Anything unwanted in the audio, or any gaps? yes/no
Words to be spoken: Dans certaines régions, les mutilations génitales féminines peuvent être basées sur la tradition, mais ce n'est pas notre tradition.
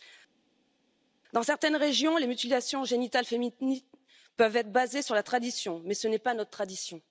no